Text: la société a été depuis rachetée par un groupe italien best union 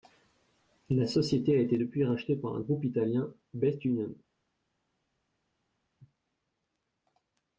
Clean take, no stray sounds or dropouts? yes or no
yes